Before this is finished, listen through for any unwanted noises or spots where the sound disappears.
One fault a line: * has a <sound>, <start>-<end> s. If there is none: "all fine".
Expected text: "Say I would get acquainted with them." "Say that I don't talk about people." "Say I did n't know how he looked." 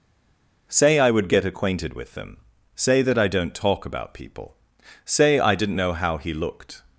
all fine